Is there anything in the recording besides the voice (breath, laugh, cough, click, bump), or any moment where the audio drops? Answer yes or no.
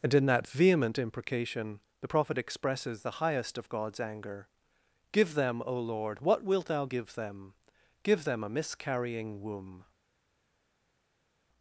no